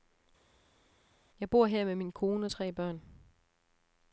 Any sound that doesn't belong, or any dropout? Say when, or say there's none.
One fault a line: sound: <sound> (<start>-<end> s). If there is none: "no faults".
no faults